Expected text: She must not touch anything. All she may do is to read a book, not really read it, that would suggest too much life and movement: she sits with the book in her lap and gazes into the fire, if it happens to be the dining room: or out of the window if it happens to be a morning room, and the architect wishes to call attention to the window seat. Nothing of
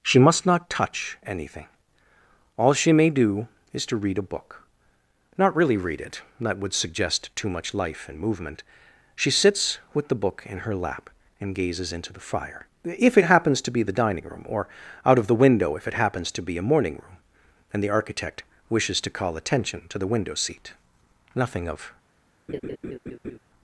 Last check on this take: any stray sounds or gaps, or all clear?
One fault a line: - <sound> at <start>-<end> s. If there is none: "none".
- laugh at 22.5-23.4 s